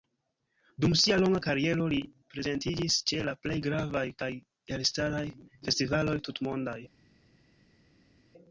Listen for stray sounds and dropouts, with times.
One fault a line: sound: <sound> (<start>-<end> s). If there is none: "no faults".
no faults